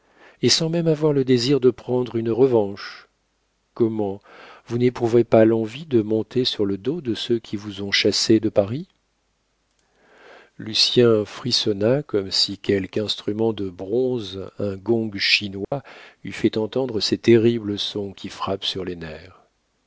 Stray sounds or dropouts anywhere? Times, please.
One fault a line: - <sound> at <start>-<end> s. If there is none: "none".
- dropout at 15.6-15.7 s